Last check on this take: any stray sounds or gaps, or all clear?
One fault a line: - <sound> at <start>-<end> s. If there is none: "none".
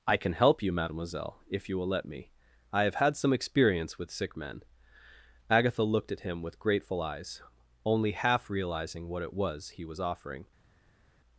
none